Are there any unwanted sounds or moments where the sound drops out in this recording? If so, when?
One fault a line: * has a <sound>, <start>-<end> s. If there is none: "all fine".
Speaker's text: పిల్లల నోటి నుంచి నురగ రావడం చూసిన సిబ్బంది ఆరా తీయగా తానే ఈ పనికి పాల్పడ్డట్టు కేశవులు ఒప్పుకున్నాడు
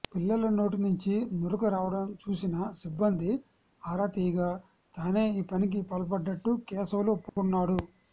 * has a dropout, 7.3-7.4 s